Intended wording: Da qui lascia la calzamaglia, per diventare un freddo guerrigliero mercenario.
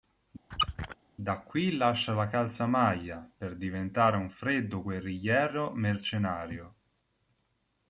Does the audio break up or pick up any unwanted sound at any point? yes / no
yes